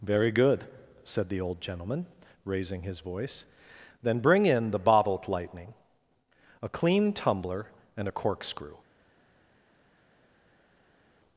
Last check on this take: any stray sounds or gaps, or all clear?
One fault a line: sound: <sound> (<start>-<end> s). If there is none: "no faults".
no faults